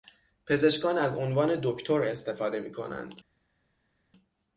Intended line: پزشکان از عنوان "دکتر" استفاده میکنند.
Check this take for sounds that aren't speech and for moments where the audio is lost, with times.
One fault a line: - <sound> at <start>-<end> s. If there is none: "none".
none